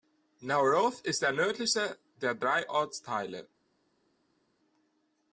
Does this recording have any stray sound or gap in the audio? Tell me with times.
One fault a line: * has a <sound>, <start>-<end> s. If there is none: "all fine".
all fine